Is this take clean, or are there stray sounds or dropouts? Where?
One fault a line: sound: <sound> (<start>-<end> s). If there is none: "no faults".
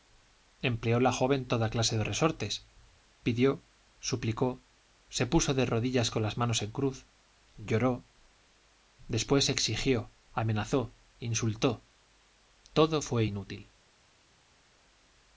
no faults